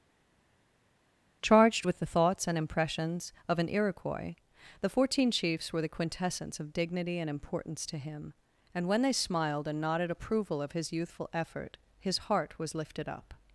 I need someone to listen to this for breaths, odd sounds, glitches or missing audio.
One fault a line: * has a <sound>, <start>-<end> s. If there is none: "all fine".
all fine